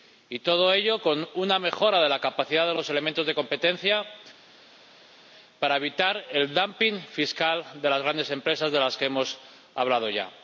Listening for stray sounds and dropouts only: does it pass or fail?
pass